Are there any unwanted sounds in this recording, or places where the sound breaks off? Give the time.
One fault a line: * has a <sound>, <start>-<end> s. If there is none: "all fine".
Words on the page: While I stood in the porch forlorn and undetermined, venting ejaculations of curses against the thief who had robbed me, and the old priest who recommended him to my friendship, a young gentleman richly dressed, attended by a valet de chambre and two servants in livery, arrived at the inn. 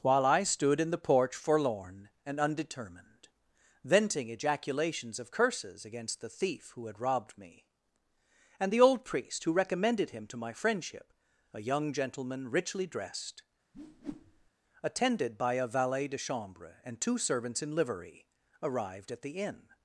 * has a whoosh, 13.7-14.5 s